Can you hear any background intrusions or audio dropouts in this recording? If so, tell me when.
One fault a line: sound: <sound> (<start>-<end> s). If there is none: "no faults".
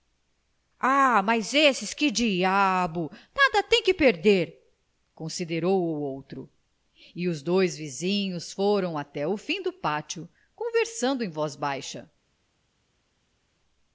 no faults